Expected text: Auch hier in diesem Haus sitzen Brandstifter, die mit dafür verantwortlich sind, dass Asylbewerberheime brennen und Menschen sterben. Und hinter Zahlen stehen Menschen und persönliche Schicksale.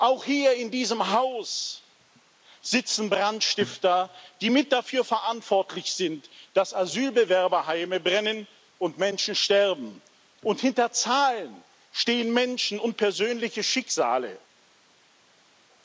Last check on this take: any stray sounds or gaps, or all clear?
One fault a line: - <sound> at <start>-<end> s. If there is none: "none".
none